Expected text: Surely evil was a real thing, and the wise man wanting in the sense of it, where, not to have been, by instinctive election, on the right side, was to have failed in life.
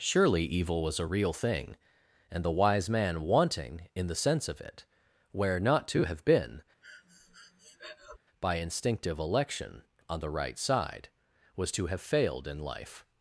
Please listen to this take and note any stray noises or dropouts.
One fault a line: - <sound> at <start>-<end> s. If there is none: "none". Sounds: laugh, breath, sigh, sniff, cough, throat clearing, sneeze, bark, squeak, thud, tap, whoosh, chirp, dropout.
- breath at 6.8-8.2 s